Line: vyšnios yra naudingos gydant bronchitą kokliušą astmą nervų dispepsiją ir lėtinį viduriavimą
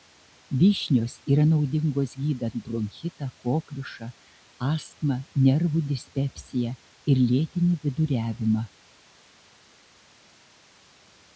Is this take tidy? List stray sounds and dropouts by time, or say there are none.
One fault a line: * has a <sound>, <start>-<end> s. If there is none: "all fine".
all fine